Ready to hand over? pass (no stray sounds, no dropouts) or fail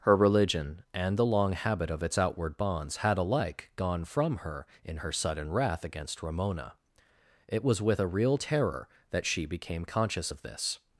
pass